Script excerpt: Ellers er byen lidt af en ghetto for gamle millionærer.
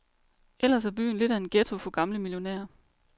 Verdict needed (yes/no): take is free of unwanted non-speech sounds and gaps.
yes